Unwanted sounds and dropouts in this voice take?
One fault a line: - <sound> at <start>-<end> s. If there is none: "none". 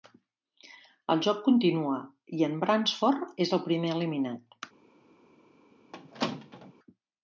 - squeak at 5.9-6.7 s